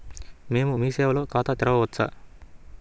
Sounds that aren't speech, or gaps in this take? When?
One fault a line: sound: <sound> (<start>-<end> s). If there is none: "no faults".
no faults